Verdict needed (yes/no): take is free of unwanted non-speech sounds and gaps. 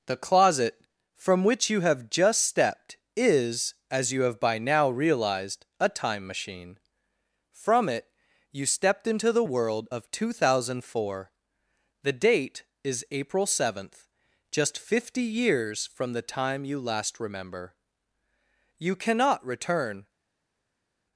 yes